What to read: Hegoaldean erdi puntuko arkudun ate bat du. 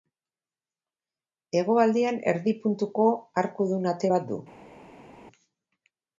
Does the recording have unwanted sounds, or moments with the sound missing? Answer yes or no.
no